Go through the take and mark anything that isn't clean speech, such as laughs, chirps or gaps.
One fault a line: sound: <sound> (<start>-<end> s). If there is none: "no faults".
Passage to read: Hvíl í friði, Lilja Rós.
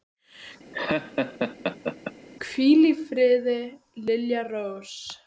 sound: laugh (0.7-2.1 s)